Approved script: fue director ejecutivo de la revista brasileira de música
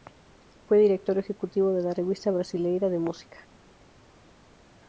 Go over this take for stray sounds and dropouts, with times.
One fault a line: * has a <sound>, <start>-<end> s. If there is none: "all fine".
all fine